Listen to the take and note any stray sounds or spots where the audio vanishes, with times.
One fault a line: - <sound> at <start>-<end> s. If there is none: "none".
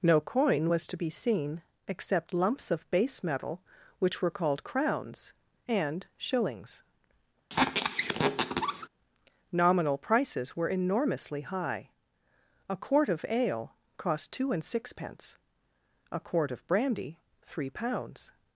- squeak at 7.5-8.9 s